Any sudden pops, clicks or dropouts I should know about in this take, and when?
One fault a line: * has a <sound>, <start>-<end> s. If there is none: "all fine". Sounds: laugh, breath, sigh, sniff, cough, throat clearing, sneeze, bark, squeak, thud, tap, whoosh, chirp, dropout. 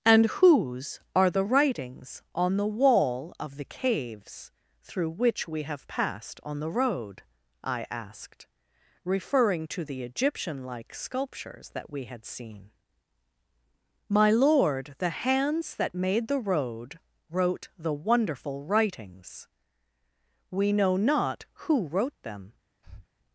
* has a breath, 22.8-23.1 s